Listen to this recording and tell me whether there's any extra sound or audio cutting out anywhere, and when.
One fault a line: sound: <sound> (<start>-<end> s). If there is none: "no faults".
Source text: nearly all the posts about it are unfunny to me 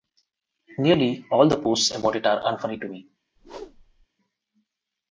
sound: whoosh (3.4-4.1 s)